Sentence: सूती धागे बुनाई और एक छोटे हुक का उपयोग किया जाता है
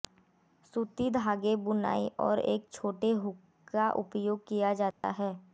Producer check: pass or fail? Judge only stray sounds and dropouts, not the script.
fail